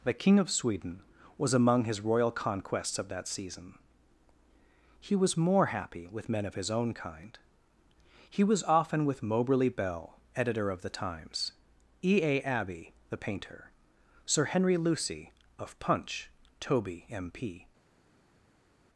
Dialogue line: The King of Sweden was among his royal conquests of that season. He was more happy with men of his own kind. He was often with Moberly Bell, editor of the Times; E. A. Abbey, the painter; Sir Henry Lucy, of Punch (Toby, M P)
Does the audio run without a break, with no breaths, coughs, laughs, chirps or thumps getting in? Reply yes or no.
yes